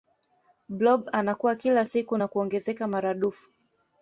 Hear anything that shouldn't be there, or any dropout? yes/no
no